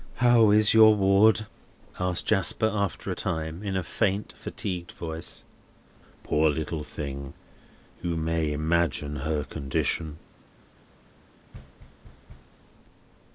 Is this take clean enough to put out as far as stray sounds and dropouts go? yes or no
no